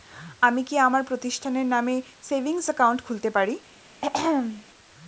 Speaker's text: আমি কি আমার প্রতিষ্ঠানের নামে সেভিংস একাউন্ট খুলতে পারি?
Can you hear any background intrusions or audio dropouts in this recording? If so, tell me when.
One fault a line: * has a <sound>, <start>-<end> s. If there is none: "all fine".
* has a throat clearing, 4.0-4.7 s